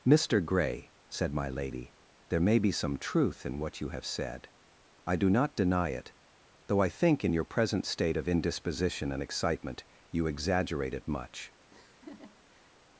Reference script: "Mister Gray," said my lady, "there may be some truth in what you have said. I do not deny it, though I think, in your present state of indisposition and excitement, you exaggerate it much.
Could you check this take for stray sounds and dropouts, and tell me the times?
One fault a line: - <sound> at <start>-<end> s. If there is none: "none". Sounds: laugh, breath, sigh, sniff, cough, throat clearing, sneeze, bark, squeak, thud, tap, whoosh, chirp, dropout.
- laugh at 11.7-12.7 s